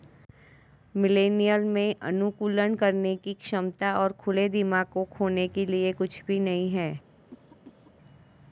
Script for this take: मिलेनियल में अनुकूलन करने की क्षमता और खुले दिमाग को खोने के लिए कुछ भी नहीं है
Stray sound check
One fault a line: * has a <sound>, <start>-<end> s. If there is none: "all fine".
* has a cough, 7.3-7.9 s